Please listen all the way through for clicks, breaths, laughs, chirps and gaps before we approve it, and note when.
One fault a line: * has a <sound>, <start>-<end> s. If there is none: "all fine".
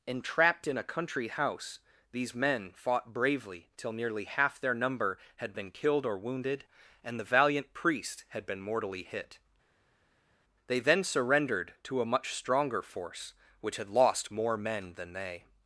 all fine